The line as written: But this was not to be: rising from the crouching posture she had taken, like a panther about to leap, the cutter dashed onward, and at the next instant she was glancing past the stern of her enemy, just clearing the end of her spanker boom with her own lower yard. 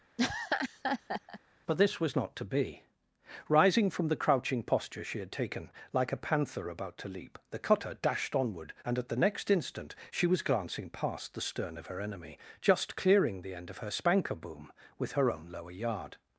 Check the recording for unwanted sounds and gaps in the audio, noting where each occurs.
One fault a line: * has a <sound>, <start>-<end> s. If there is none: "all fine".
* has a laugh, 0.2-1.4 s